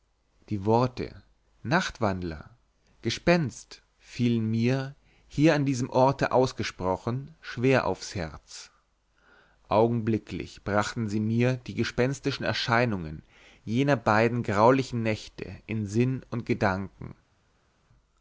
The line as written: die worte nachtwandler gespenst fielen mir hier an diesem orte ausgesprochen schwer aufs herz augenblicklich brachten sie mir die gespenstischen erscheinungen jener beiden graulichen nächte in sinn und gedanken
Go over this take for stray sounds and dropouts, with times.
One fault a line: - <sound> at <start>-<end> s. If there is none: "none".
none